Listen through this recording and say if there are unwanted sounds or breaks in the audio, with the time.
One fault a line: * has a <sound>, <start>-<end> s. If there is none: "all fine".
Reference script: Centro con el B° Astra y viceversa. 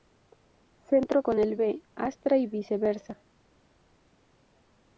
all fine